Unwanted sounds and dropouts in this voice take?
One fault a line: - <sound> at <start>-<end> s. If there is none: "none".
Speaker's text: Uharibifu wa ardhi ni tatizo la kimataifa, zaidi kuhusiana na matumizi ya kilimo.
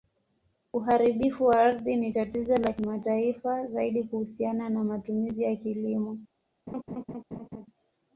- laugh at 6.7-7.7 s